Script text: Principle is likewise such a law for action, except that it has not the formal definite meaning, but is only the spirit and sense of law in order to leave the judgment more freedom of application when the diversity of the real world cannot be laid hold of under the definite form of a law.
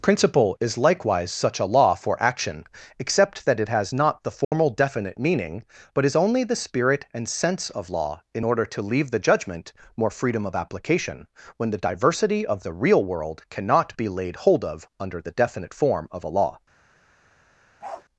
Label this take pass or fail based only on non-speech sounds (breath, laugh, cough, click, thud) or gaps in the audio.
fail